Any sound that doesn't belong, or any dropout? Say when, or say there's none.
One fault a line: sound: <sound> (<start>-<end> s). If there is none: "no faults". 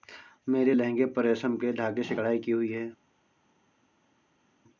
no faults